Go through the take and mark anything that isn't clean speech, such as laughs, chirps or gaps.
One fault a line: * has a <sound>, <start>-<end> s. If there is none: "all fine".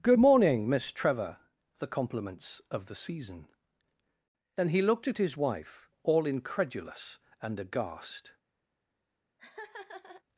* has a laugh, 9.4-10.2 s